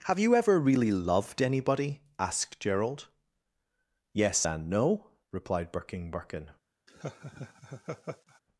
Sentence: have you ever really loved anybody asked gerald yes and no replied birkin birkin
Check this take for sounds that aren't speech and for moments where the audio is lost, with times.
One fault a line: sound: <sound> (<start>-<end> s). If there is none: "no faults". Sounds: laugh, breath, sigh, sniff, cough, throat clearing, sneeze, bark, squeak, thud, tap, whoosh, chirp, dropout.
sound: laugh (6.9-8.4 s)